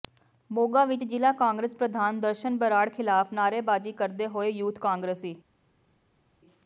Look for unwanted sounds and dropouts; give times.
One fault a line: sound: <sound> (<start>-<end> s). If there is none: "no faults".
no faults